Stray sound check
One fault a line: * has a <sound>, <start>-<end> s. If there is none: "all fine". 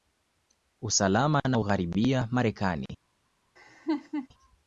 * has a laugh, 3.6-4.3 s